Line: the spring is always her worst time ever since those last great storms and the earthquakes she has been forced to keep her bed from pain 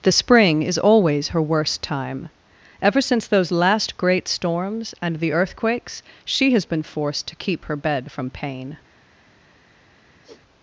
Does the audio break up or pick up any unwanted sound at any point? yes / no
yes